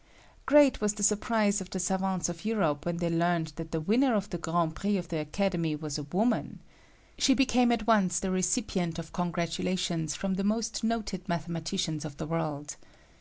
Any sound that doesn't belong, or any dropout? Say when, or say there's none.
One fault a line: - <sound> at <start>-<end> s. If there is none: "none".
none